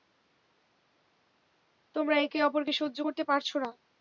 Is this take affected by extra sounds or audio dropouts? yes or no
no